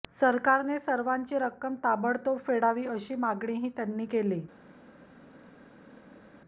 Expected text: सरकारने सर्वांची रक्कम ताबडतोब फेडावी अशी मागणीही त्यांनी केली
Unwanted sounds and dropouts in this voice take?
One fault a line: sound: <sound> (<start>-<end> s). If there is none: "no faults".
no faults